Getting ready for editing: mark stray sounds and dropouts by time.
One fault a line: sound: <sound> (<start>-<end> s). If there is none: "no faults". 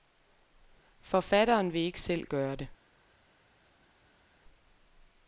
no faults